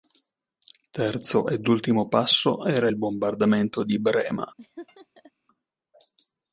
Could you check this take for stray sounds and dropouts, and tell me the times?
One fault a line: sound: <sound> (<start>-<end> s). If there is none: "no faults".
sound: laugh (4.6-5.3 s)